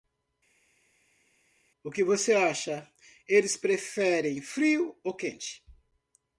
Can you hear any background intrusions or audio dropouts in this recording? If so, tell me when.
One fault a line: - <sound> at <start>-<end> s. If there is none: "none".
none